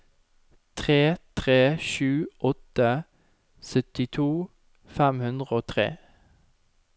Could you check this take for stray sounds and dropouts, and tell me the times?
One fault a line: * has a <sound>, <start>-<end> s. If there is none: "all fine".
all fine